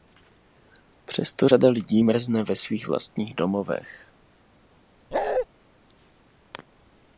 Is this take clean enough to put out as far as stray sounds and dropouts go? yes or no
no